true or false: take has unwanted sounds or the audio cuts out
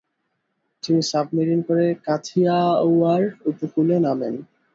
false